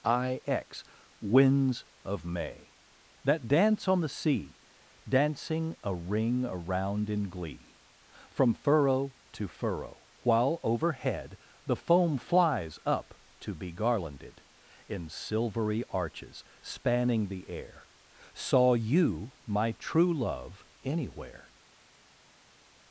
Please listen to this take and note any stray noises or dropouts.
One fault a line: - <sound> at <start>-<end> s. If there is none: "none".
none